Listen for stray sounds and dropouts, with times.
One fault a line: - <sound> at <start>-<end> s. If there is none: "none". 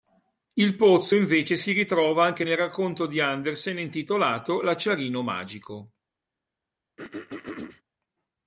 - throat clearing at 7.0-7.8 s